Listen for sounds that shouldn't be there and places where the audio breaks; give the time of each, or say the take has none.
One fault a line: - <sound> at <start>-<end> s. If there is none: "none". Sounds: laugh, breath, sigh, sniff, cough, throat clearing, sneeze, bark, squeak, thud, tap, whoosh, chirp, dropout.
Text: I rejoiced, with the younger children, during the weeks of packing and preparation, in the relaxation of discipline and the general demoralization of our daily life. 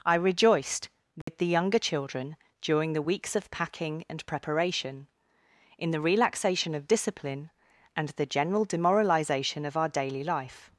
- dropout at 1.2-1.3 s